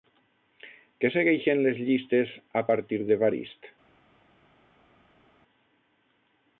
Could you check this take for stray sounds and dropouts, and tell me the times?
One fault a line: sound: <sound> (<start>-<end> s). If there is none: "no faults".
no faults